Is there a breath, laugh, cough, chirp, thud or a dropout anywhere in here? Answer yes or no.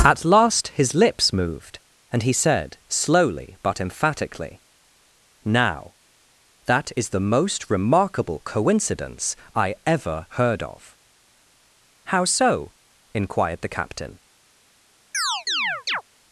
yes